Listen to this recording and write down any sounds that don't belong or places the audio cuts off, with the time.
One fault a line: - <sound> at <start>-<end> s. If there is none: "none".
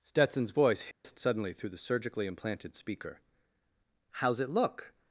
- dropout at 0.9-1.0 s